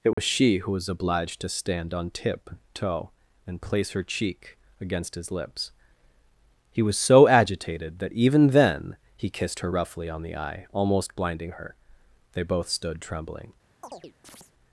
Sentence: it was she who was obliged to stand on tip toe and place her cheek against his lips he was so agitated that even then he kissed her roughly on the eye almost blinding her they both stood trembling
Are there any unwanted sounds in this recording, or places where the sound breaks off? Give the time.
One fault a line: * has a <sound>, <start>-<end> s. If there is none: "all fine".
* has a dropout, 0.1-0.2 s
* has a chirp, 13.8-14.5 s